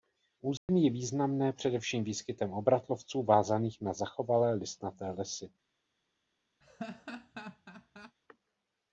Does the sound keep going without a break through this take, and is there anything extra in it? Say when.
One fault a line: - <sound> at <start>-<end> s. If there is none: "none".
- dropout at 0.6-0.7 s
- laugh at 6.6-8.2 s